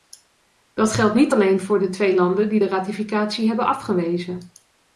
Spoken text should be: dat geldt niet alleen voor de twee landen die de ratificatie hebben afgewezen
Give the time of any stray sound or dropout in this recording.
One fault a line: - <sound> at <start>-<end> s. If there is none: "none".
none